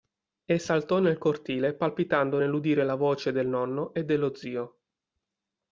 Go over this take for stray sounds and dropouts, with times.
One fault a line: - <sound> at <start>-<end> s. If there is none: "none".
none